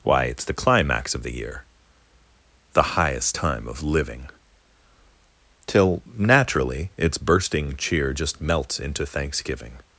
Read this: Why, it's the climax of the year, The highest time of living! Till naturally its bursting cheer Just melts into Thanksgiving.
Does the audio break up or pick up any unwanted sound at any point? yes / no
no